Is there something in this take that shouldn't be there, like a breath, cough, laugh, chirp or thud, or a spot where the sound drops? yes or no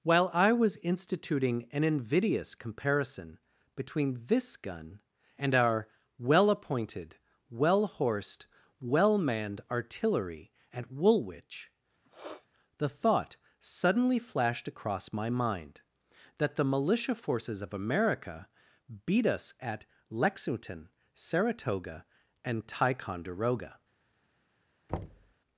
yes